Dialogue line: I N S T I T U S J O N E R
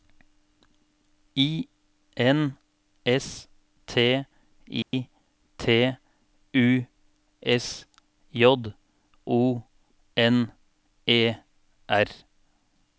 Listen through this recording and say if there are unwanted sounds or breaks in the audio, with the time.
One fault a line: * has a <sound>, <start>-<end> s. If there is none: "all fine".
* has a dropout, 4.8-4.9 s